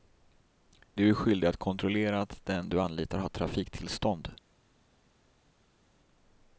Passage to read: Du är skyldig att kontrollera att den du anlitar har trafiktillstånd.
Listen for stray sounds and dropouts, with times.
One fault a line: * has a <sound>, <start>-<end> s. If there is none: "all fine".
all fine